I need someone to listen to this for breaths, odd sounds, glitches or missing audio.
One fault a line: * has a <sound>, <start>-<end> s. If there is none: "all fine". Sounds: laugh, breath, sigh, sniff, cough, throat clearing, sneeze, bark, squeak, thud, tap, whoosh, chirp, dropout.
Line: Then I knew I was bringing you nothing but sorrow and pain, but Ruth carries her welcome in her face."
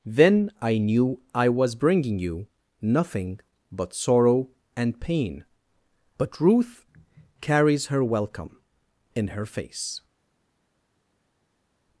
all fine